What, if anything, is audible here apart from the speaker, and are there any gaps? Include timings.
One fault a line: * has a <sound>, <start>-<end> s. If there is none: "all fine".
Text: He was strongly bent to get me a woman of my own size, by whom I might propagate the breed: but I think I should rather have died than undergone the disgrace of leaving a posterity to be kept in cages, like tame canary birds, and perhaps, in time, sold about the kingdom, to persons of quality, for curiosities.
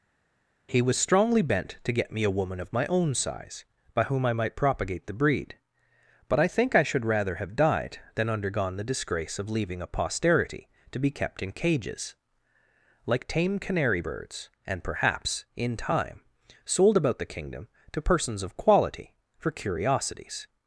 all fine